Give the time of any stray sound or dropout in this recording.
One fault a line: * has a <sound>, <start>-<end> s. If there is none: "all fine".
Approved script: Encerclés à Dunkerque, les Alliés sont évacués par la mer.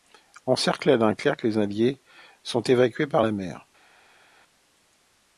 all fine